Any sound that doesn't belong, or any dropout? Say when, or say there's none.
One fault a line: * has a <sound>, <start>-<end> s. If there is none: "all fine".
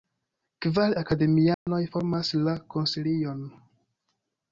* has a dropout, 1.5-1.7 s